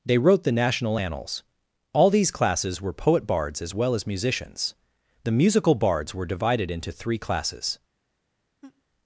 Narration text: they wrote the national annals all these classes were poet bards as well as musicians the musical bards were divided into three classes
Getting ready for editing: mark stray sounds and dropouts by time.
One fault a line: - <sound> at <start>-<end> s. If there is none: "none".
- laugh at 8.6-8.8 s